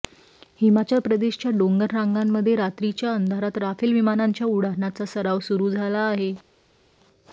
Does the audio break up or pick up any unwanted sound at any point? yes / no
no